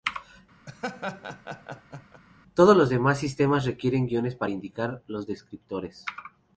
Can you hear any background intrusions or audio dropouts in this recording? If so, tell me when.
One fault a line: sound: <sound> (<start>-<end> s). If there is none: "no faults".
sound: laugh (0.7-2.2 s)